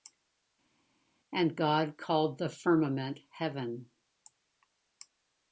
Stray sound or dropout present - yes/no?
no